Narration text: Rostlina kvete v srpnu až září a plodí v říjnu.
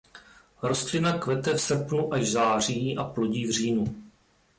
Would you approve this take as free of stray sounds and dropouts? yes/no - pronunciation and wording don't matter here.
yes